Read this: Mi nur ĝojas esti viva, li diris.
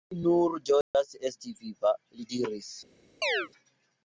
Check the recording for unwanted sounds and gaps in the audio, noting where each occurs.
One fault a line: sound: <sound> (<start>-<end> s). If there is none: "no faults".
sound: dropout (0.8-0.9 s)
sound: chirp (3.2-3.5 s)